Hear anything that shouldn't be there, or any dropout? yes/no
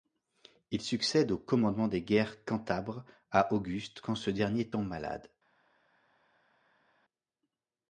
no